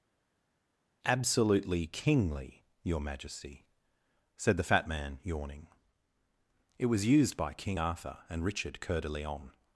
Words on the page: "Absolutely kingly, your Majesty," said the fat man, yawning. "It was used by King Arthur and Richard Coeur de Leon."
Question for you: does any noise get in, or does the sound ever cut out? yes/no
no